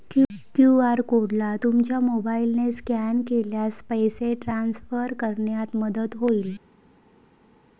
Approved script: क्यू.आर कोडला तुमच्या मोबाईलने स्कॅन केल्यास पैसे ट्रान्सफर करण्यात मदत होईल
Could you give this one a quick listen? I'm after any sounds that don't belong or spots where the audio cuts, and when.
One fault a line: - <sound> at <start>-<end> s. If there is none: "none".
none